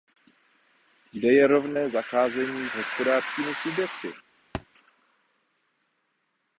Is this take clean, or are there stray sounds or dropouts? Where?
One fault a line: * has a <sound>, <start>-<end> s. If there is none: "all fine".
* has a thud, 4.5-4.7 s